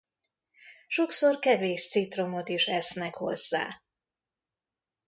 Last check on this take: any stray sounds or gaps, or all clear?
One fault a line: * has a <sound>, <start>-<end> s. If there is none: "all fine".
all fine